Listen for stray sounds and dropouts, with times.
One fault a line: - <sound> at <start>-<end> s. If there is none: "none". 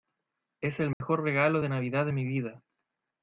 - dropout at 0.9-1.0 s